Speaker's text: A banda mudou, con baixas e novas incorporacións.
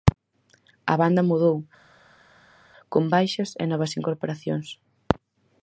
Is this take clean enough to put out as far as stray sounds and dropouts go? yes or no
yes